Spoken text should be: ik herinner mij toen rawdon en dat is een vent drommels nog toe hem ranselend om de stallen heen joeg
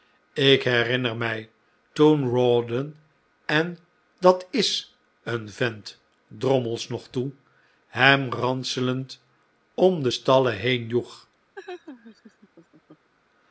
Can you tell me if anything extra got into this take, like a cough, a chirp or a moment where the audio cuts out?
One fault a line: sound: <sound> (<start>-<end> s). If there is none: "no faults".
sound: laugh (11.5-13.1 s)